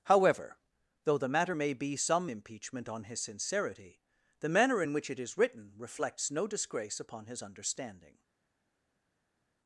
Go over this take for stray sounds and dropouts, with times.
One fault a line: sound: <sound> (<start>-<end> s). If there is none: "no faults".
no faults